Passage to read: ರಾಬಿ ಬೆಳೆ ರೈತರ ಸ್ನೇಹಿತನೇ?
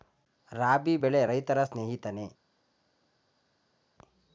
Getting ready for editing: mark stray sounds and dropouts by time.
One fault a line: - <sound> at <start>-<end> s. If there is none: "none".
none